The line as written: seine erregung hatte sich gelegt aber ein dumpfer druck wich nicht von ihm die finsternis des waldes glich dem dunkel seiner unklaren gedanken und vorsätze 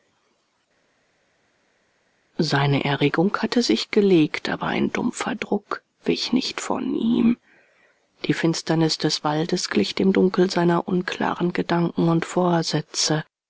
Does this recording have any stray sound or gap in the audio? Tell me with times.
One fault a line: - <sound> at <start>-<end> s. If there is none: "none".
none